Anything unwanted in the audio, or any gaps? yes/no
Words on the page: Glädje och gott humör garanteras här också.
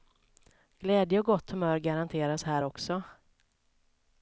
no